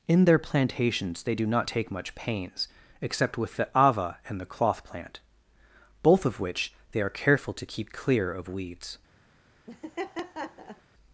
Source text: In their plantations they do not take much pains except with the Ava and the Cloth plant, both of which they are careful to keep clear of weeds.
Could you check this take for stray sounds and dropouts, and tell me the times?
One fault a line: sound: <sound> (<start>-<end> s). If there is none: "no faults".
sound: laugh (9.7-10.8 s)